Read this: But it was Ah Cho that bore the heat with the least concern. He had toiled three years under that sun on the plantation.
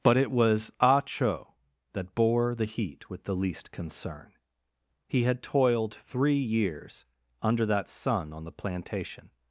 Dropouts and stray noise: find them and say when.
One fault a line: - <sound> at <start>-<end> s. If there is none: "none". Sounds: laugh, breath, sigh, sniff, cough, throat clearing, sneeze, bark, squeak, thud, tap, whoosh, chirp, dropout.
none